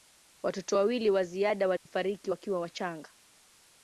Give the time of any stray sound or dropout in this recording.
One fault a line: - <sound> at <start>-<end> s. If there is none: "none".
- dropout at 1.8-1.9 s